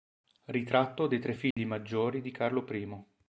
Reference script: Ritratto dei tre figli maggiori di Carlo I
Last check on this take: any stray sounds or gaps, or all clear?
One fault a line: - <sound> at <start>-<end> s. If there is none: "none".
- dropout at 1.5-1.6 s